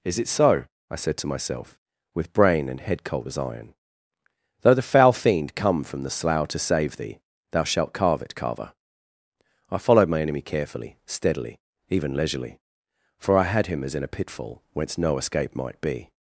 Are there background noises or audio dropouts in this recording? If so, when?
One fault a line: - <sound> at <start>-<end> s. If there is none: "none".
none